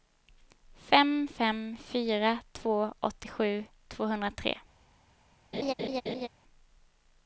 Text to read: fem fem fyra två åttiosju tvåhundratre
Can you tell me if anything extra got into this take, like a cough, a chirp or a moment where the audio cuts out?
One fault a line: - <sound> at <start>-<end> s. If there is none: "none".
- laugh at 5.5-6.3 s